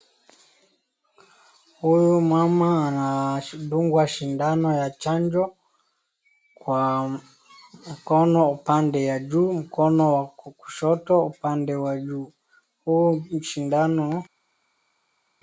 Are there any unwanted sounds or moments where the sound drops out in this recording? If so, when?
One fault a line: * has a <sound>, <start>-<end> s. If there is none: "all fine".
all fine